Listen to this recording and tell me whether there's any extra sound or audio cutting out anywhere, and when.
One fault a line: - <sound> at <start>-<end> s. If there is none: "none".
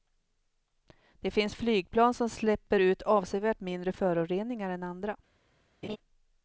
- laugh at 5.8-6.0 s